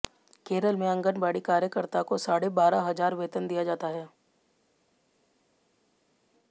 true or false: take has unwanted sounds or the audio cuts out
false